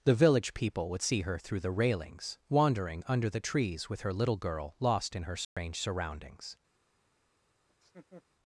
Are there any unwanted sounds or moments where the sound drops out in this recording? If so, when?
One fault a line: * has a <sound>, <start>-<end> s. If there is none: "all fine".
* has a dropout, 5.4-5.6 s
* has a laugh, 7.7-8.2 s